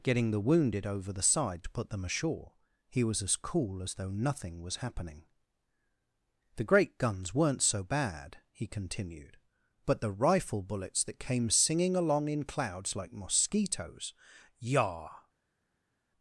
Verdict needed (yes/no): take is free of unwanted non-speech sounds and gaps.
yes